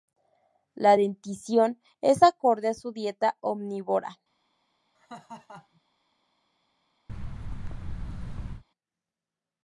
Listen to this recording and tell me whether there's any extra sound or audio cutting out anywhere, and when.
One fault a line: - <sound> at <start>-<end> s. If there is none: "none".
- laugh at 4.9-5.8 s
- thud at 7.1-8.6 s